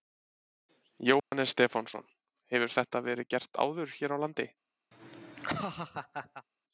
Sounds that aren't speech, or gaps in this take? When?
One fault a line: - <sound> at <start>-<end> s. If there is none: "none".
- dropout at 1.2-1.3 s
- laugh at 4.9-6.5 s